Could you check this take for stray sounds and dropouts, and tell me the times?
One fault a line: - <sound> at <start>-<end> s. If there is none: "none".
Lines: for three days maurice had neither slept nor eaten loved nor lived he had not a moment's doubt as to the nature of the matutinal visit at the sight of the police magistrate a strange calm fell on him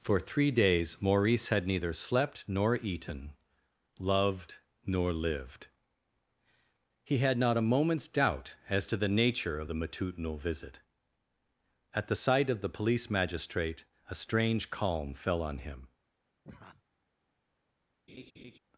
- laugh at 16.4-16.8 s
- laugh at 18.1-18.6 s